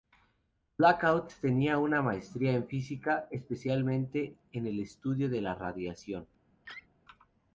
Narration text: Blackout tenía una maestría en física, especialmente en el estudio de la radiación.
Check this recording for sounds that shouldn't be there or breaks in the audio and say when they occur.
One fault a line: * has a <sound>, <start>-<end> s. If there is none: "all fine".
* has a laugh, 6.6-6.9 s